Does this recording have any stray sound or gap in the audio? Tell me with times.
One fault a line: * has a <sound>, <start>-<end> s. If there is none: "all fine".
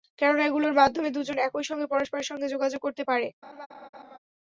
* has a laugh, 3.4-4.2 s